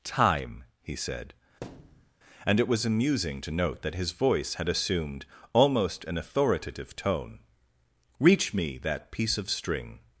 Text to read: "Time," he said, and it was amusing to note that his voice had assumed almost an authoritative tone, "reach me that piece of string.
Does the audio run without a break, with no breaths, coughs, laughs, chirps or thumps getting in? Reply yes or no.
no